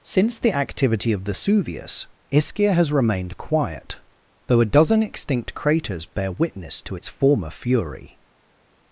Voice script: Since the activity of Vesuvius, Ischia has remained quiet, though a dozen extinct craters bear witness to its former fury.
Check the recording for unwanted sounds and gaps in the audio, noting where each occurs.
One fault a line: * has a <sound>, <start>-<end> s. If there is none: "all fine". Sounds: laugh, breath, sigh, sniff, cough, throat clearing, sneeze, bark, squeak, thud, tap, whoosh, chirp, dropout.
all fine